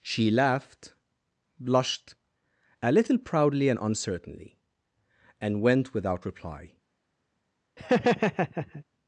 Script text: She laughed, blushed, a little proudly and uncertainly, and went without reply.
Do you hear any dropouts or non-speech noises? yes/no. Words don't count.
yes